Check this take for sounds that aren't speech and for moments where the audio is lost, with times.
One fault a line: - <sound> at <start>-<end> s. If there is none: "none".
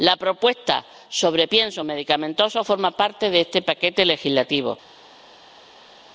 none